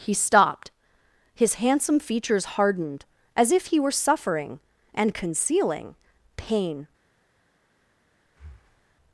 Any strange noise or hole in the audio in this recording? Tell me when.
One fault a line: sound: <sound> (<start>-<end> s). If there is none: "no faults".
sound: breath (8.3-9.0 s)